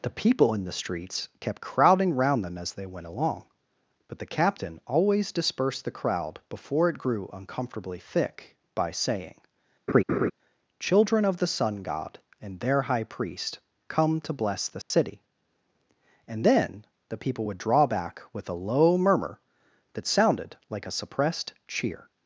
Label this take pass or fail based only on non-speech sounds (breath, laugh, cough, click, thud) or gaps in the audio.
fail